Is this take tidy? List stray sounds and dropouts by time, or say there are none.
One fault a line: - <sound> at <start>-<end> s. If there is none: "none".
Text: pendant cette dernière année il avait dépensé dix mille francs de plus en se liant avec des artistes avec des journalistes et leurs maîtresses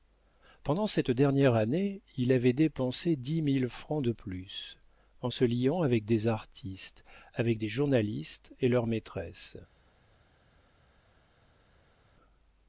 none